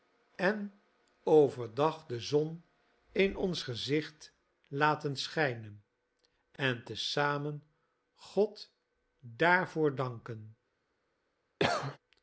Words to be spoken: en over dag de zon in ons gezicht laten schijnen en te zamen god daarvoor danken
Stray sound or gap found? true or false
true